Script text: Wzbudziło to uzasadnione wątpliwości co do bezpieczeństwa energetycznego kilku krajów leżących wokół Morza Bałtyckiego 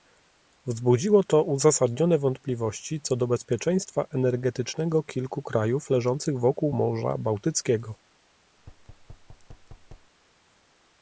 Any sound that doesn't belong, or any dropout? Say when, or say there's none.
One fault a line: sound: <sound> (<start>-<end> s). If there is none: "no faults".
sound: thud (8.6-10.1 s)